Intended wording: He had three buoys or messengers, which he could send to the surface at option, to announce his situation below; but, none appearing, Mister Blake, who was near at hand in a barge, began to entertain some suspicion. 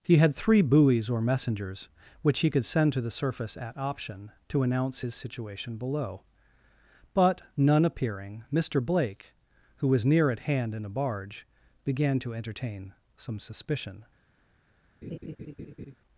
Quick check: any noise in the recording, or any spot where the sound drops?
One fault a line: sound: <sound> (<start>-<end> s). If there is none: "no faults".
sound: laugh (15.0-16.0 s)